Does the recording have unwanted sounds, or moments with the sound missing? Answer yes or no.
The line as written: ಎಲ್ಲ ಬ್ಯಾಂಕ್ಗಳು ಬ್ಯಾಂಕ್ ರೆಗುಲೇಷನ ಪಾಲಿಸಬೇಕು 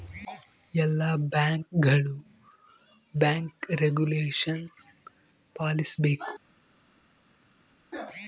no